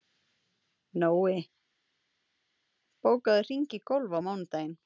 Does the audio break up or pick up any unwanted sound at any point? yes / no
no